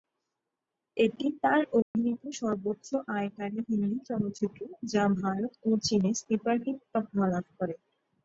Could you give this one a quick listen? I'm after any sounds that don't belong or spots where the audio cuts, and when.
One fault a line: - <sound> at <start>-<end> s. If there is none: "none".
- dropout at 1.8-1.9 s